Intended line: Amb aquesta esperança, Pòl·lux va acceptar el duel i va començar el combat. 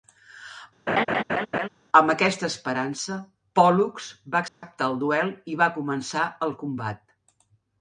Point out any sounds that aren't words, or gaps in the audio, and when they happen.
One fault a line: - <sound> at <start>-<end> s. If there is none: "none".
- laugh at 0.9-1.7 s
- dropout at 4.5-4.6 s